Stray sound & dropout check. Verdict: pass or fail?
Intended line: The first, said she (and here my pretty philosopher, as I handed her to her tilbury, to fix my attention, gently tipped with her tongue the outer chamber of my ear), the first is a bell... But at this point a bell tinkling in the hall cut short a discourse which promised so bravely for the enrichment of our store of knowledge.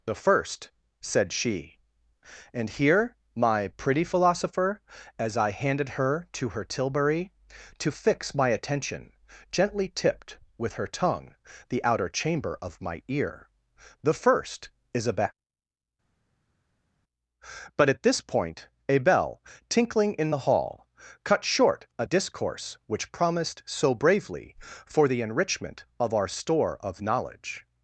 pass